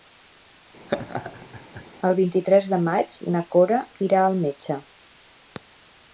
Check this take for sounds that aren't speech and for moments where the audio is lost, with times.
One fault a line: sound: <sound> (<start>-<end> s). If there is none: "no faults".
sound: laugh (0.9-1.9 s)